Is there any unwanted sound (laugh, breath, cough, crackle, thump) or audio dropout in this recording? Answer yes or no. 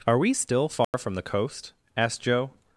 yes